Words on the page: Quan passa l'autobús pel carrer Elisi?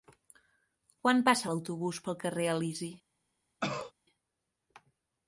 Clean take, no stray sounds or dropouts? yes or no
no